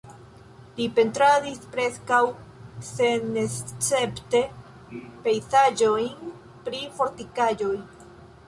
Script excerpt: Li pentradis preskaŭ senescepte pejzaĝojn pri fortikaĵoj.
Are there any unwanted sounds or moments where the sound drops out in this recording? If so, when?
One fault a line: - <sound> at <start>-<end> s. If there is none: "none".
none